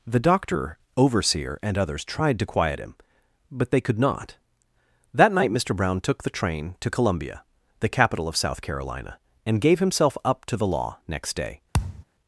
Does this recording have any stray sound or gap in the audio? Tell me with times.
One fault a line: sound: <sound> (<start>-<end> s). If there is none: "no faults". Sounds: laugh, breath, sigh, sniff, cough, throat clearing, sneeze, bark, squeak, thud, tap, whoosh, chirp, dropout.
sound: thud (11.7-12.0 s)